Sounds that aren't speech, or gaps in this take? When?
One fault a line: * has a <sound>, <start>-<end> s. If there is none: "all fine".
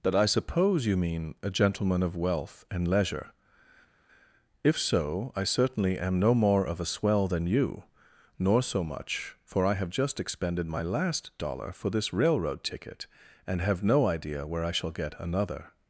all fine